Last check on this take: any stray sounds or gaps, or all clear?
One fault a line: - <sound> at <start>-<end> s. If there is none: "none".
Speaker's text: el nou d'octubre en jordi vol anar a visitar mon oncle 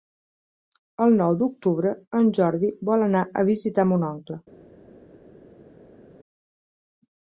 none